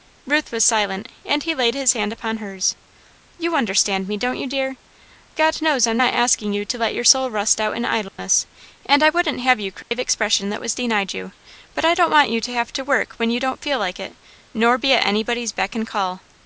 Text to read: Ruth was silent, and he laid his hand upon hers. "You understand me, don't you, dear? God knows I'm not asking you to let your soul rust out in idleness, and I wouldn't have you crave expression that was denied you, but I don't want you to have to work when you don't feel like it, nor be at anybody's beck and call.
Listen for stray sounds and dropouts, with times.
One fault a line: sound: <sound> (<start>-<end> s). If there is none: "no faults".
sound: dropout (8.1-8.2 s)
sound: dropout (9.8-9.9 s)